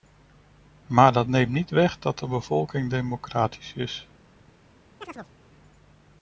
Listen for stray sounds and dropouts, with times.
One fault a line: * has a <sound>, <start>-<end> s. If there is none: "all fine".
* has a chirp, 5.0-5.3 s